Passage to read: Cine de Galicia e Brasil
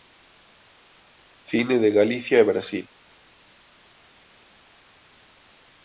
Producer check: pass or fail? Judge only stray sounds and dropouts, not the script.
pass